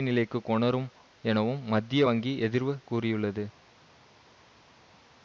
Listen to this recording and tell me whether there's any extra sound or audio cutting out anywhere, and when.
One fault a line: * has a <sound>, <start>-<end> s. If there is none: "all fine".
all fine